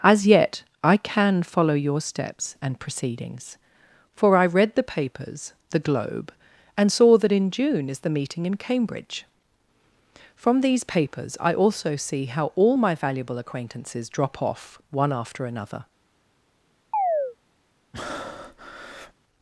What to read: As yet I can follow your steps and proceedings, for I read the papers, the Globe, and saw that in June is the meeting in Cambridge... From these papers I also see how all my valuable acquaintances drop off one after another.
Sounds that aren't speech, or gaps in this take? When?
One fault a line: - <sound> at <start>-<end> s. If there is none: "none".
- chirp at 16.9-17.4 s
- breath at 17.9-19.1 s